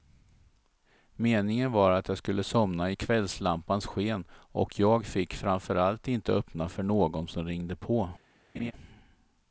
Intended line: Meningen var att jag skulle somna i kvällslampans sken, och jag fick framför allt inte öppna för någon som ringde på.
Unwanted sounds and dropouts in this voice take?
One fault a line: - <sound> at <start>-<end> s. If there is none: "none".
- laugh at 8.5-8.7 s